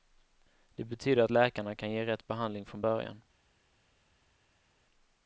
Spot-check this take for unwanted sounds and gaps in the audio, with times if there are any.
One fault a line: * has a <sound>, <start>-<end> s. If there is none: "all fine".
all fine